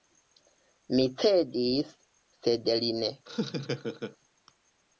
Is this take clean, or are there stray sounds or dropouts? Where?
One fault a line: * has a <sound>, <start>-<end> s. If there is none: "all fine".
* has a laugh, 3.3-4.2 s